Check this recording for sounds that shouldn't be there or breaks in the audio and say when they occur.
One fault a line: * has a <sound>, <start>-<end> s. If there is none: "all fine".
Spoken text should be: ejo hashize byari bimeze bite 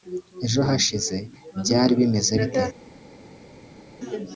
all fine